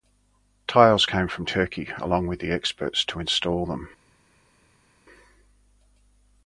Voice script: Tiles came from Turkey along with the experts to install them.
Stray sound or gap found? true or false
false